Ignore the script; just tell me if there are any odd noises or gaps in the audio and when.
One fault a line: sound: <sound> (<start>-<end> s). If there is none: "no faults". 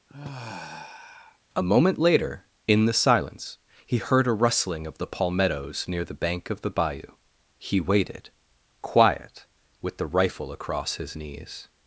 sound: sigh (0.1-1.4 s)